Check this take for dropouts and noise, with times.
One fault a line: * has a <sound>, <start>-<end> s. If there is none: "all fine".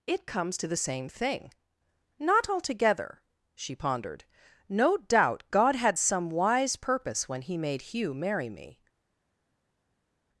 all fine